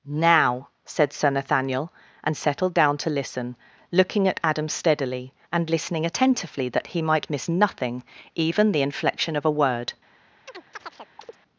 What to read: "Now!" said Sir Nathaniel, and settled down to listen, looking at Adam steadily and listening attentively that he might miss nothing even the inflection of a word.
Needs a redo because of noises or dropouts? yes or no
yes